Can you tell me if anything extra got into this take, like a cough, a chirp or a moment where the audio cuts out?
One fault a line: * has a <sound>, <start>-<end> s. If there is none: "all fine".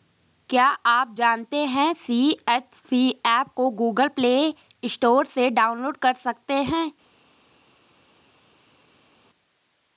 all fine